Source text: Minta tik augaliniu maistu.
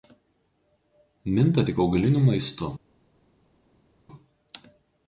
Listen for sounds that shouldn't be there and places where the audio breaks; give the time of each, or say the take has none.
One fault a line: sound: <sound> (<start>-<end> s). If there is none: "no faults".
no faults